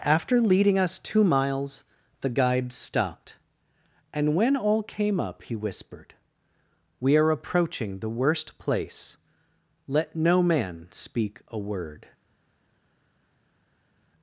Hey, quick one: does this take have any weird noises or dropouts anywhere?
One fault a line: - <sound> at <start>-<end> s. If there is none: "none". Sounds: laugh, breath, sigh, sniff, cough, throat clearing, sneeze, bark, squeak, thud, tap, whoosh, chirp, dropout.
none